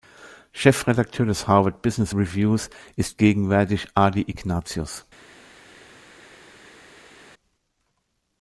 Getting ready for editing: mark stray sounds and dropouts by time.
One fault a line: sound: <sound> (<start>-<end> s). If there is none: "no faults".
no faults